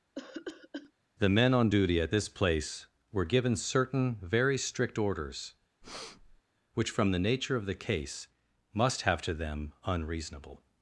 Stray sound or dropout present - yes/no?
yes